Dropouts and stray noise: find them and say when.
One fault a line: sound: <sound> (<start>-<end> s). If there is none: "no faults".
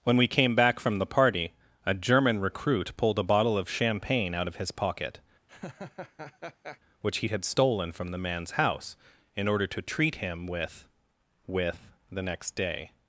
sound: laugh (5.5-6.8 s)